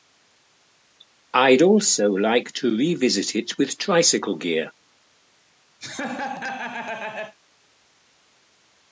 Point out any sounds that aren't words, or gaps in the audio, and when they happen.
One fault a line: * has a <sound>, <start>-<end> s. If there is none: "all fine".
* has a laugh, 5.8-7.4 s